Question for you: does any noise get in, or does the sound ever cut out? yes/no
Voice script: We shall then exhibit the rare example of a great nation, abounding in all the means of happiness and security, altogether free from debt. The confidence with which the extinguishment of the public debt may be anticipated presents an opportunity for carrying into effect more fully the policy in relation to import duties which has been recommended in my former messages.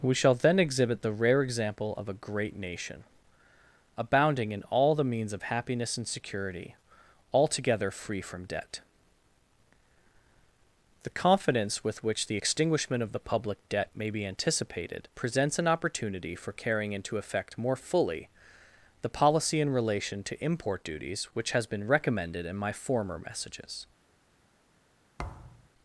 yes